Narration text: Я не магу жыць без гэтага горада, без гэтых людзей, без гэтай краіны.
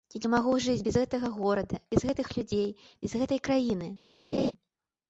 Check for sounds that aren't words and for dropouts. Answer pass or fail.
fail